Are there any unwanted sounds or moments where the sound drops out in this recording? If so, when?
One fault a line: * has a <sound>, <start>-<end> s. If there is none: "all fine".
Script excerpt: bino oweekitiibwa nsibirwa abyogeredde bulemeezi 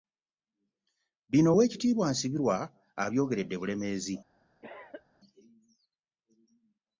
* has a cough, 4.6-5.1 s